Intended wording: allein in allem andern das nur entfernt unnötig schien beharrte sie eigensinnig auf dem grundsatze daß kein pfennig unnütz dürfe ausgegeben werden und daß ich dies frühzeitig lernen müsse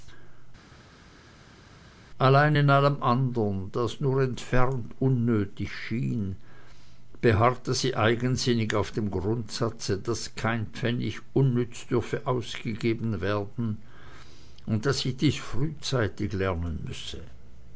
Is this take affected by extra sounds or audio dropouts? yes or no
no